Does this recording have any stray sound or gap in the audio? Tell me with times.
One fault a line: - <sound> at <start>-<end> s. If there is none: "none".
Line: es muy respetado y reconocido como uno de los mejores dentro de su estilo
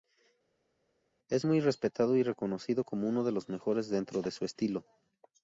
none